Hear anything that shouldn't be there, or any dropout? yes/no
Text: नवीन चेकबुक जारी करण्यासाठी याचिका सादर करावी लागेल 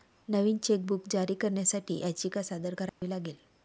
yes